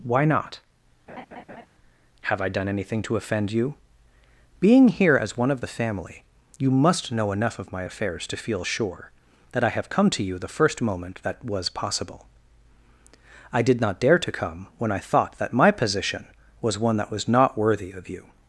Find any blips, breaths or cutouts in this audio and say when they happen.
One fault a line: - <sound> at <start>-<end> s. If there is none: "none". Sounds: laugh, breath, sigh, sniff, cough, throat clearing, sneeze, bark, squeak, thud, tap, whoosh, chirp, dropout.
- laugh at 1.1-1.7 s